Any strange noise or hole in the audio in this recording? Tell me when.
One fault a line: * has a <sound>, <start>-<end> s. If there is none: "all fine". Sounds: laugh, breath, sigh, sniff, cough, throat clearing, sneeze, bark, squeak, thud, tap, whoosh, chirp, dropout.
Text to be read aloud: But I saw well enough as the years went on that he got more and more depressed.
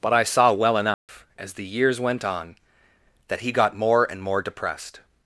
* has a dropout, 0.9-1.1 s